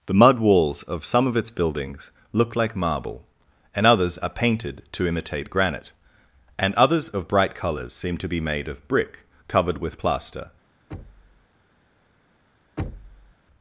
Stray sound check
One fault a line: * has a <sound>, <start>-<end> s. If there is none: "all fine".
* has a thud, 10.9-11.5 s
* has a thud, 12.8-13.3 s